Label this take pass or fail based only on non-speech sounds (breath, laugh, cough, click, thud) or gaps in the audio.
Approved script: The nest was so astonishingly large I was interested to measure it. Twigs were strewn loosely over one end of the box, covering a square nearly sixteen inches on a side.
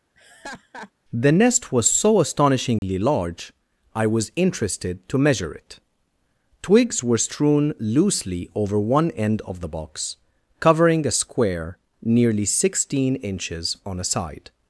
fail